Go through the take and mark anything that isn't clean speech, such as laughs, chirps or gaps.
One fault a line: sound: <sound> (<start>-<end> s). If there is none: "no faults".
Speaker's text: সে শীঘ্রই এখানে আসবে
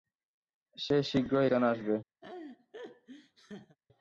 sound: laugh (2.2-3.8 s)